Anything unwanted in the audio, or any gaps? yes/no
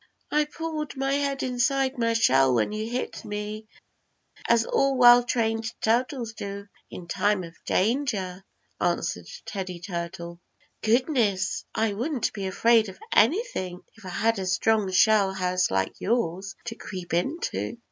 no